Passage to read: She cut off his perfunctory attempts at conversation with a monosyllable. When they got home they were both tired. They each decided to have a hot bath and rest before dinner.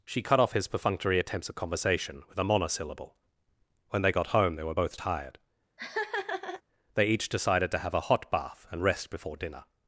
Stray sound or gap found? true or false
true